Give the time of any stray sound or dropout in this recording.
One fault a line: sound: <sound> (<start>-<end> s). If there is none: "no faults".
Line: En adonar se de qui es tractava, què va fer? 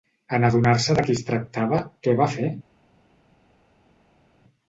no faults